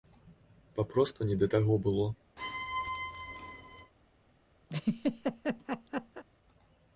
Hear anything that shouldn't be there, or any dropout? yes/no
yes